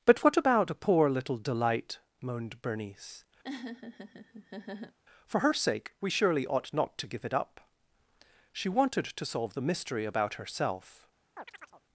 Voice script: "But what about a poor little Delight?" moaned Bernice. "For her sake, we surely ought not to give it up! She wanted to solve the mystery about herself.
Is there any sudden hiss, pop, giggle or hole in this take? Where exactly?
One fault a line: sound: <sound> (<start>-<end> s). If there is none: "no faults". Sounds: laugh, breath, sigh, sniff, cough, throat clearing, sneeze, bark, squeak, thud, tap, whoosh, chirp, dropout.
sound: laugh (3.4-5.0 s)
sound: chirp (11.4-11.8 s)